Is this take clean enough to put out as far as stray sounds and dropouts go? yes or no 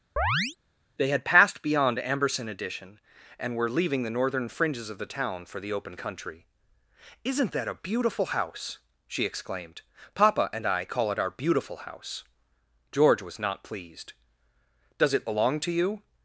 no